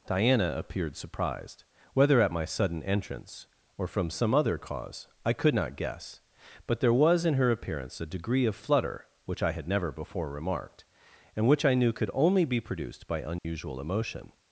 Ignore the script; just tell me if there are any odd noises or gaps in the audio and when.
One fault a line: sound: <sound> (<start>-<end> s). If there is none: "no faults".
sound: dropout (13.4-13.4 s)